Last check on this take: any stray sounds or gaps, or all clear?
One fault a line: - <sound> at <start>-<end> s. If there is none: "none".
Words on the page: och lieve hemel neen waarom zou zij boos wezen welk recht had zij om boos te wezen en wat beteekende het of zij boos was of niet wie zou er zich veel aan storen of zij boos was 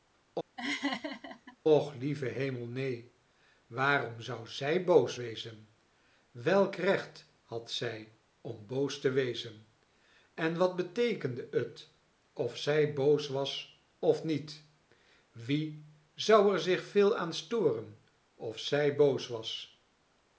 - laugh at 0.6-1.6 s